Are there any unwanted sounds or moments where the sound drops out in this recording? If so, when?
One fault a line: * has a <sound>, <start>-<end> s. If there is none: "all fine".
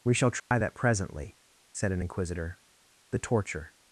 * has a dropout, 0.4-0.5 s